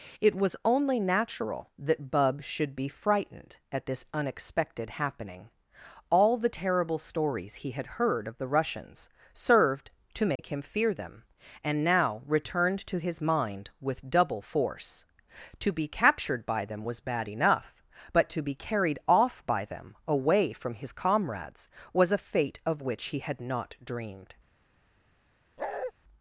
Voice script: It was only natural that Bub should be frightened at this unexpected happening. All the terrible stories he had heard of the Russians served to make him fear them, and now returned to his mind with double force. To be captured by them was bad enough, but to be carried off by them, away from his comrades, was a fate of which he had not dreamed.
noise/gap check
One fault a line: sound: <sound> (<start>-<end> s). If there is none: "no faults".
sound: dropout (10.4-10.4 s)
sound: bark (25.6-25.9 s)